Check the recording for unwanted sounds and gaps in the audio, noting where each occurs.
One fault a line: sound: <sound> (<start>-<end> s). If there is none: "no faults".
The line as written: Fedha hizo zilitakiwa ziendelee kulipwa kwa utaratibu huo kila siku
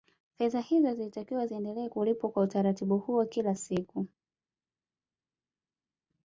no faults